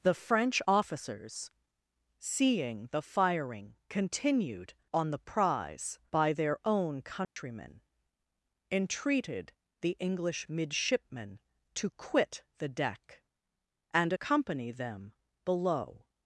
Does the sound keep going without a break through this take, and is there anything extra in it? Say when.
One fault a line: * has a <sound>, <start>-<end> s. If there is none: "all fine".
* has a dropout, 7.2-7.4 s